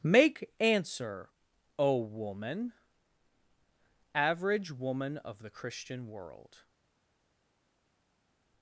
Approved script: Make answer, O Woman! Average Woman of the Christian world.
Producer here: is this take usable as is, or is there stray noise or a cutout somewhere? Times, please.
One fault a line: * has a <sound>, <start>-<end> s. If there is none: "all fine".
all fine